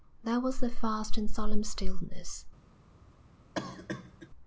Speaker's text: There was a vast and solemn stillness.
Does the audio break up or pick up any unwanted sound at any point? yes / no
yes